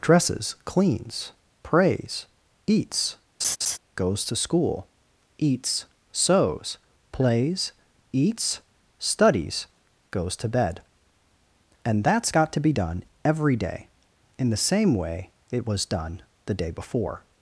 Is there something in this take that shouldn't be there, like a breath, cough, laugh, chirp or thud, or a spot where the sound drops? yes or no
yes